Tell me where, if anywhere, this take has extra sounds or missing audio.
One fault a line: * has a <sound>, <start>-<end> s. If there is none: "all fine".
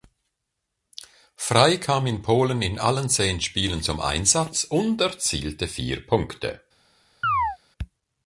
* has a chirp, 7.2-7.6 s